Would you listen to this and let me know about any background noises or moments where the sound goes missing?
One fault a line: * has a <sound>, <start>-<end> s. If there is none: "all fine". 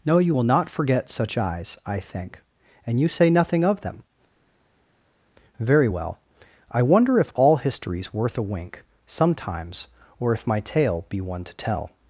all fine